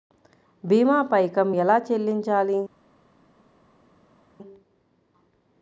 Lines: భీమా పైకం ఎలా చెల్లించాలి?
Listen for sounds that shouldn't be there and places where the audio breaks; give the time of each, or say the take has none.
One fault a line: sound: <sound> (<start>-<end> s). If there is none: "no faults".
no faults